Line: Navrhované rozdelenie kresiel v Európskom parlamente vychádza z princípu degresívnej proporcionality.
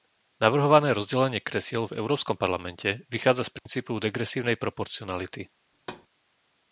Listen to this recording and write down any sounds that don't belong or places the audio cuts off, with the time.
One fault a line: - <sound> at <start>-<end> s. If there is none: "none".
- dropout at 3.6-3.7 s
- thud at 5.7-6.1 s